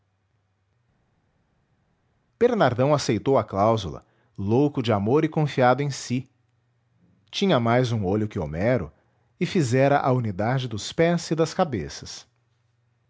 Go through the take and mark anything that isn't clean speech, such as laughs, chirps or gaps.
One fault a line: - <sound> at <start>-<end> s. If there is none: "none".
none